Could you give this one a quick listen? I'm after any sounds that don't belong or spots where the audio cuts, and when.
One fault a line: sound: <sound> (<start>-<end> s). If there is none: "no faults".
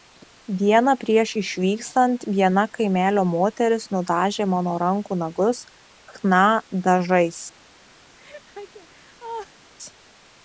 sound: laugh (8.2-9.7 s)